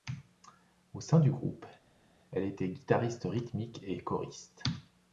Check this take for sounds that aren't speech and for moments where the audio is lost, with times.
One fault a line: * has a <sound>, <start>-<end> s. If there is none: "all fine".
all fine